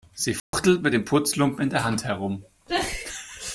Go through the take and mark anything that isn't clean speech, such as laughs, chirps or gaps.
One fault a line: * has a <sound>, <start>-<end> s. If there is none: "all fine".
* has a dropout, 0.4-0.5 s